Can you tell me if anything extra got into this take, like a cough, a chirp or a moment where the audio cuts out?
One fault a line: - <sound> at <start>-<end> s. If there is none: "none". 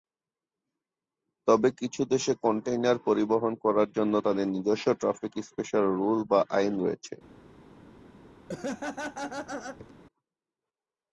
- laugh at 8.5-9.9 s